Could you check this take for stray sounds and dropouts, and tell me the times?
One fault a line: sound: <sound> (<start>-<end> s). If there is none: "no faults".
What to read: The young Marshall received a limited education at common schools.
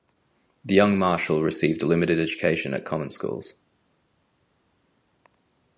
no faults